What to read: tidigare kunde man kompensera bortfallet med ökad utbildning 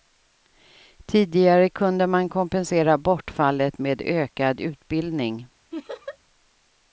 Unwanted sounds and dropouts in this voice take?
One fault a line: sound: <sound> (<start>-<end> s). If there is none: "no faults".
sound: laugh (5.7-6.2 s)